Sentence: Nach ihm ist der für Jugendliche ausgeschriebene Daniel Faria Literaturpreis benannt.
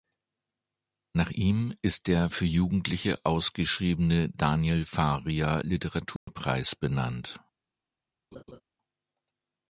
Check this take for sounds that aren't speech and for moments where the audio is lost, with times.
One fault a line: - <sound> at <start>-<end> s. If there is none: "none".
- dropout at 6.2-6.3 s
- laugh at 8.3-8.6 s